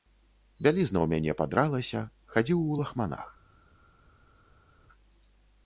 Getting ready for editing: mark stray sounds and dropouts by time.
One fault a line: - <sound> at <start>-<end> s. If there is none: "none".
none